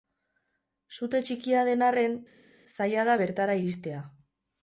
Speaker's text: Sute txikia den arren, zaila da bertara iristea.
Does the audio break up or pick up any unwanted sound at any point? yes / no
no